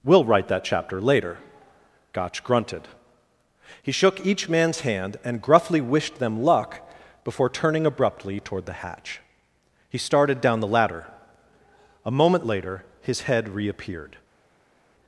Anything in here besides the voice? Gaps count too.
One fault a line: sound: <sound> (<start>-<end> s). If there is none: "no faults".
no faults